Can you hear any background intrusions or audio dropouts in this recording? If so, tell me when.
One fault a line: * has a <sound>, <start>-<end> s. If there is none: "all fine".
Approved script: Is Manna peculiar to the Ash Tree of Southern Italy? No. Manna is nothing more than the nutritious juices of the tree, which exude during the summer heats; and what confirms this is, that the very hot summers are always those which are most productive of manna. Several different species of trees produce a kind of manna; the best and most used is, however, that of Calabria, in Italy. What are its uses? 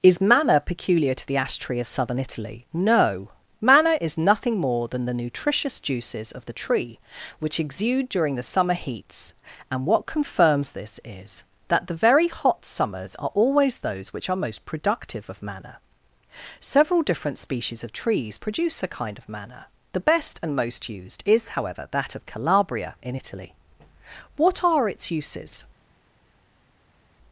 all fine